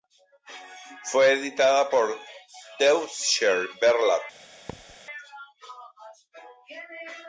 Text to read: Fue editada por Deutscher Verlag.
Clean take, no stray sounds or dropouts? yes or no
no